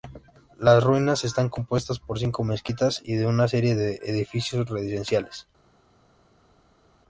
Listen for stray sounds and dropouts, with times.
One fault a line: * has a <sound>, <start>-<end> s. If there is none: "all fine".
all fine